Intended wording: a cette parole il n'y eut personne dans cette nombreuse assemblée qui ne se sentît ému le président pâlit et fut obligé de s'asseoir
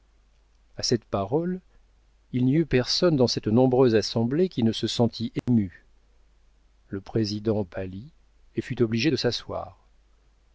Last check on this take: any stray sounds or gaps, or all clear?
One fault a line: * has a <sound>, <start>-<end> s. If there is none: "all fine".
* has a dropout, 5.4-5.5 s